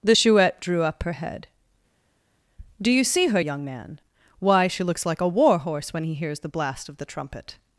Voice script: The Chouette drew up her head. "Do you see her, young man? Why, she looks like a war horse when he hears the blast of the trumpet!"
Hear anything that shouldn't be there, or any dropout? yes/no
no